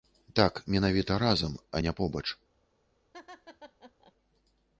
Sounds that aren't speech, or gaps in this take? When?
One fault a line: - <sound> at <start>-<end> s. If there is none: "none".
- laugh at 3.1-4.1 s